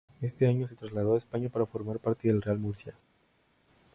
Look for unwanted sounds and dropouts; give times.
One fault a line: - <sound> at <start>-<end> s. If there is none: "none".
none